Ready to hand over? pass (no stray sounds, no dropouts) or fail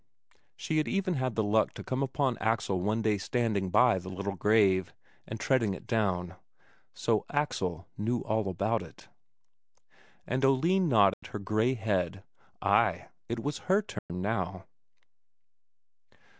fail